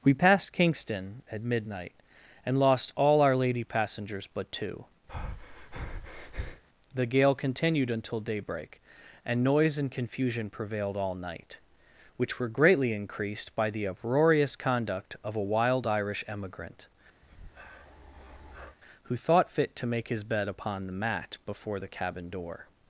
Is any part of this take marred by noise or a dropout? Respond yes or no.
yes